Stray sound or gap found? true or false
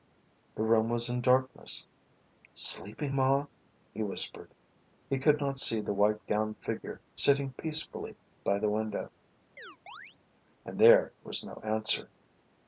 true